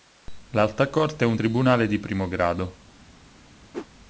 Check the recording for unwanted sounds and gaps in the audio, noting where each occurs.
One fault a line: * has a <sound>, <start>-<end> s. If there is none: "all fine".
* has a whoosh, 3.7-3.9 s